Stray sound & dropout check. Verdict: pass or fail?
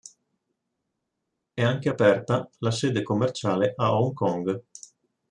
pass